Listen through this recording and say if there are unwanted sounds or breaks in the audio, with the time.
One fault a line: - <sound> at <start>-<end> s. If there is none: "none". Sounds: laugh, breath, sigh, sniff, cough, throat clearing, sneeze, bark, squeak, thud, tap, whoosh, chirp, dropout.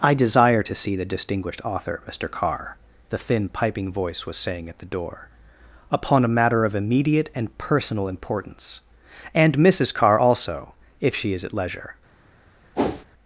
- whoosh at 12.8-13.1 s